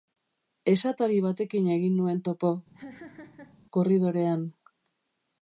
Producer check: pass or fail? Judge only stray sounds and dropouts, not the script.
fail